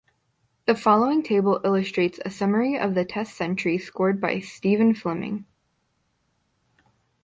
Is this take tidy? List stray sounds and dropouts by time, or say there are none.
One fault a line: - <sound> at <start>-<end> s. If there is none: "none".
none